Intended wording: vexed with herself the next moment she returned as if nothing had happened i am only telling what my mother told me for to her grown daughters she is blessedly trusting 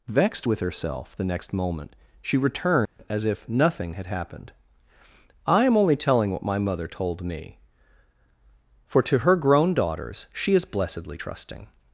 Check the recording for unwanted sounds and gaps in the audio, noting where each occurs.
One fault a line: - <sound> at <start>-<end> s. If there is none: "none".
- dropout at 2.9-3.0 s